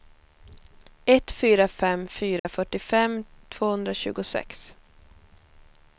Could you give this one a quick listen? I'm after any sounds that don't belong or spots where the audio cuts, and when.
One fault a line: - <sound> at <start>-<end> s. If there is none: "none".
- dropout at 2.4-2.5 s